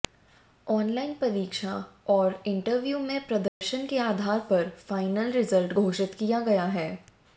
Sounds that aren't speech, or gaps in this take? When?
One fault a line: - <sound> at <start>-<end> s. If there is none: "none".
- dropout at 3.5-3.6 s